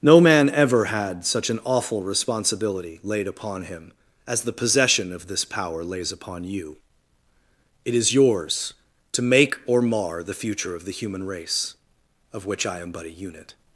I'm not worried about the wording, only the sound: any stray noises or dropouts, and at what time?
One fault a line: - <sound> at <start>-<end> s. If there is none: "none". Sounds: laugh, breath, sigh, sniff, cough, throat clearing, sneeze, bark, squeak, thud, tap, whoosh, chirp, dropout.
none